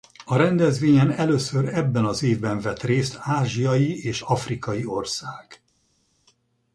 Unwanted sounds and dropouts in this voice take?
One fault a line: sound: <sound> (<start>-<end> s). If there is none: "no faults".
no faults